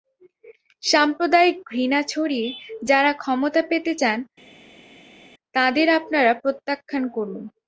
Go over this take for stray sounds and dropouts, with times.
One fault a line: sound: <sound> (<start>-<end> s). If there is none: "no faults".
no faults